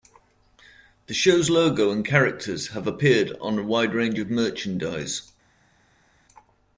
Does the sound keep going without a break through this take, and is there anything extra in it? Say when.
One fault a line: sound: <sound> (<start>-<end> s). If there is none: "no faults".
no faults